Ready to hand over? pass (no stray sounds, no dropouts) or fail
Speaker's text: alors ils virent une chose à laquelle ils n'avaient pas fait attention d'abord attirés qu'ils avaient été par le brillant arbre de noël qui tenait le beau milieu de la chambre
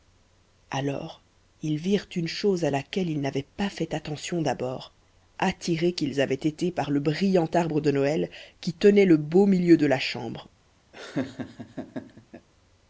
fail